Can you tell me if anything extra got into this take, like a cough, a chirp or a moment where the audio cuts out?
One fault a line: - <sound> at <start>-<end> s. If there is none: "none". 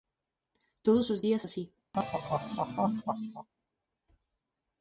- laugh at 1.9-3.5 s